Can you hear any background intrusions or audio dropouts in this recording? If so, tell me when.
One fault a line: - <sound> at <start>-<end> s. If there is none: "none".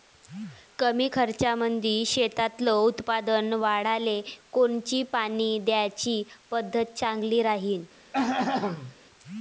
- throat clearing at 8.1-8.9 s